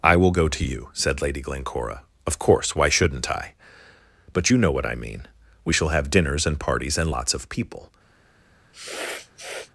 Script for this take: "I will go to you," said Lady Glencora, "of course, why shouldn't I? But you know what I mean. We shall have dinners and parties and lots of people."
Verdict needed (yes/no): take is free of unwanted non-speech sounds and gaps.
no